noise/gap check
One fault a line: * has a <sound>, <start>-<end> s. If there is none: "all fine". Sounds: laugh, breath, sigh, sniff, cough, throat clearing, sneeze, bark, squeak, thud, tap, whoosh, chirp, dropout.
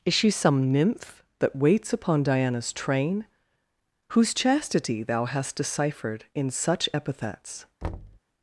* has a thud, 7.8-8.2 s